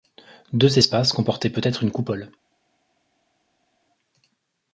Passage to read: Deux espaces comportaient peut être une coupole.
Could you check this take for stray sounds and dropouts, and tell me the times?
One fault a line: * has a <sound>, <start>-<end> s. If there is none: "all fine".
all fine